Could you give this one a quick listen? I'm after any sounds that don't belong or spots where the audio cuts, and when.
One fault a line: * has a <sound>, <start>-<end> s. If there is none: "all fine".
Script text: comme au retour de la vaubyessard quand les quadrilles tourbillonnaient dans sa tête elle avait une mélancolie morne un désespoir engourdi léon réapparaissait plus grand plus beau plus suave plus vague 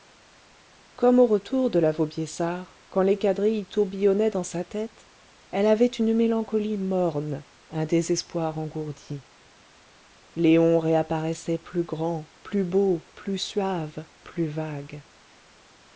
all fine